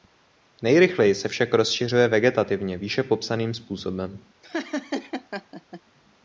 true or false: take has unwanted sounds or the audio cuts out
true